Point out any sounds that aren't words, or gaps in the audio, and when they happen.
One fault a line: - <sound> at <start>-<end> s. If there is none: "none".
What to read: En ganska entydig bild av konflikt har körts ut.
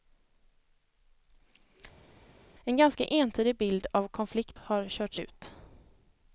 none